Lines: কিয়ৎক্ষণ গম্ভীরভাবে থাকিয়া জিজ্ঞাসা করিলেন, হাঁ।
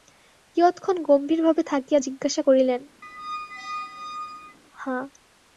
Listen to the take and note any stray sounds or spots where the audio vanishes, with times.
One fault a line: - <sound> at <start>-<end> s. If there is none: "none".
- squeak at 3.0-4.6 s